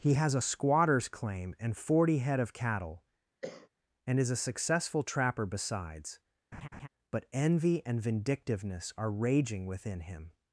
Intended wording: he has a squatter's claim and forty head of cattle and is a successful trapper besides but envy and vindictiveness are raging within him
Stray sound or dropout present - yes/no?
yes